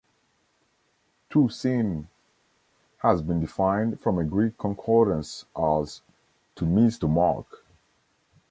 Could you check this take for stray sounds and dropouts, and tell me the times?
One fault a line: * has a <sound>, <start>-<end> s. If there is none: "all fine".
all fine